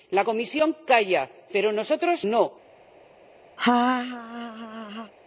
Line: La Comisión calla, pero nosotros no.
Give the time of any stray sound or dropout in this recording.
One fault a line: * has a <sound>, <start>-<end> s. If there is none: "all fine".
* has a laugh, 3.6-5.1 s